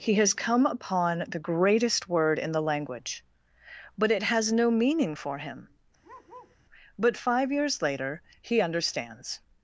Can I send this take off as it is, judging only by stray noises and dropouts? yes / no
no